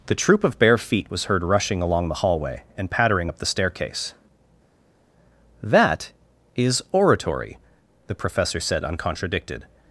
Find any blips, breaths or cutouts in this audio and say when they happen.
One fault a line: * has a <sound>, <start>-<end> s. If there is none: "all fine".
all fine